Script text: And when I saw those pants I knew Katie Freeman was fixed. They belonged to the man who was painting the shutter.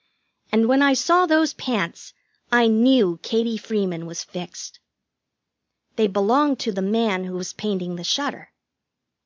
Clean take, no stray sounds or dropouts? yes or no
yes